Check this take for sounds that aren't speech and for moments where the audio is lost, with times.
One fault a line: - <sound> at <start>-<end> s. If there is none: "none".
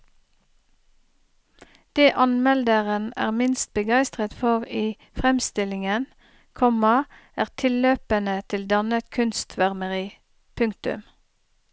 none